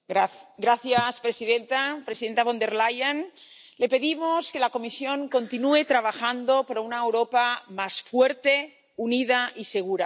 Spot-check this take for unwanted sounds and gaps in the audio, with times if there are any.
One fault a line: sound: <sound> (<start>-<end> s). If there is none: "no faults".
no faults